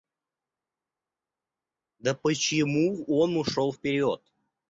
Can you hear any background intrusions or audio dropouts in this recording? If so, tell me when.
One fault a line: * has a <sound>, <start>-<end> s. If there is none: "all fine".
all fine